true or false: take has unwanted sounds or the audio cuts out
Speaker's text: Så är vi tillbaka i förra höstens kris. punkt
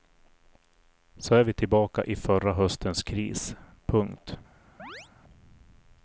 true